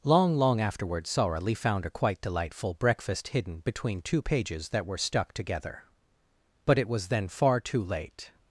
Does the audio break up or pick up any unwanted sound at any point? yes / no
no